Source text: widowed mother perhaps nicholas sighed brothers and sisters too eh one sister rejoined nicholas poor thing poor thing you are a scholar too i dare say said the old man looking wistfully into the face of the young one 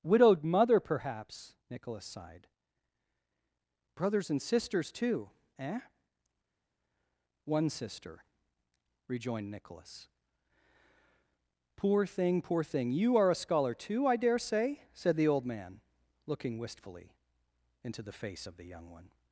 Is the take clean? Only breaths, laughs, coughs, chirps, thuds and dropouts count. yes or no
yes